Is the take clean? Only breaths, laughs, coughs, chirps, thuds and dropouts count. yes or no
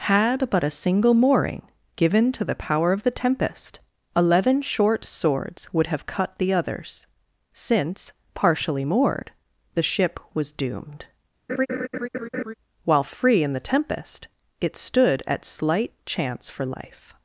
no